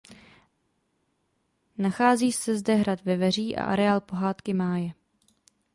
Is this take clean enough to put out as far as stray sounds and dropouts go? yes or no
yes